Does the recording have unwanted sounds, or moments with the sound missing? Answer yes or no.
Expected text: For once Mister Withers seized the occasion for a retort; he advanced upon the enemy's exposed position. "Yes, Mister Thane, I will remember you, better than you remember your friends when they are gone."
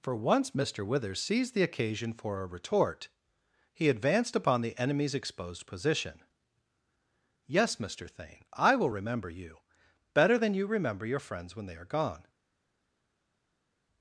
no